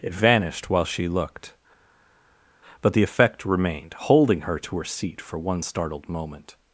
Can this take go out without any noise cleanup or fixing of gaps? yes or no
yes